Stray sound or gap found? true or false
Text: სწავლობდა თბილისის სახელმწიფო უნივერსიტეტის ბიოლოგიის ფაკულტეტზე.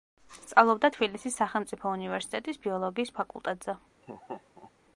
true